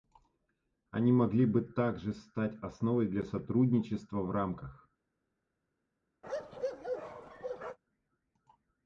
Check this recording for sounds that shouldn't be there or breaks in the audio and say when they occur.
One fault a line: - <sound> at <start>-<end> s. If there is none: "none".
- bark at 6.2-7.8 s